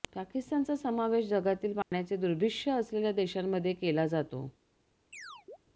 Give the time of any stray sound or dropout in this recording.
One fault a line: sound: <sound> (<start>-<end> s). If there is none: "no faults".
sound: dropout (1.8-1.9 s)
sound: chirp (5.1-5.6 s)